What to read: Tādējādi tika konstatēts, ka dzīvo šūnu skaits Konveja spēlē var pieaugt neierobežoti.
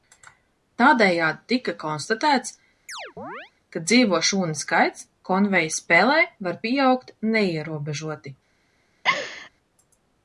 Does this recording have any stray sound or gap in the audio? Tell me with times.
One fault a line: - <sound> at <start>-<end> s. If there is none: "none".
- chirp at 2.9-3.5 s
- laugh at 9.0-9.5 s